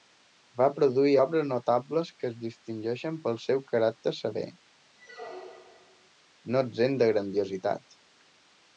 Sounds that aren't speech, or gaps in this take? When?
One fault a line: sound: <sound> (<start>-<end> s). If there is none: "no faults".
sound: squeak (5.0-6.1 s)